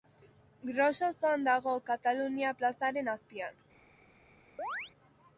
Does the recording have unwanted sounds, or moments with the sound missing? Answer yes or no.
yes